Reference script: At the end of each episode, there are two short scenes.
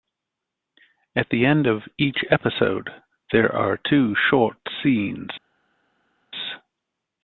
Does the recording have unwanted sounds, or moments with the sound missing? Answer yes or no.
no